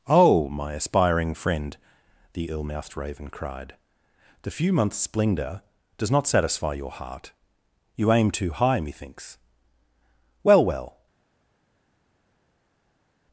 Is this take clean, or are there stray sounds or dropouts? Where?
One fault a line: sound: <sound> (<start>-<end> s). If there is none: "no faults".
no faults